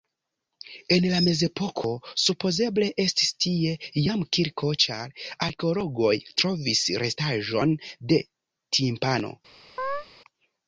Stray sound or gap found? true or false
true